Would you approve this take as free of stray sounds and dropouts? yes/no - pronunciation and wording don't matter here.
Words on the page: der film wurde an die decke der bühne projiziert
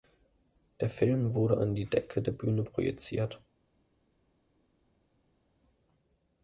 yes